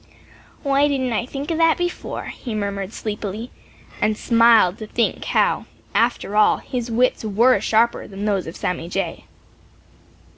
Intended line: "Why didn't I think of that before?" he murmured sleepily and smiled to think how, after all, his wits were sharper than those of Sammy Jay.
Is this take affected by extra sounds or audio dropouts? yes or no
no